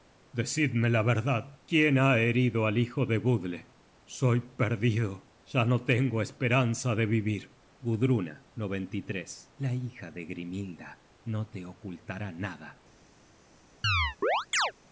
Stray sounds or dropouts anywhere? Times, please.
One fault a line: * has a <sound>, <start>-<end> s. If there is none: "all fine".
* has a chirp, 13.8-14.7 s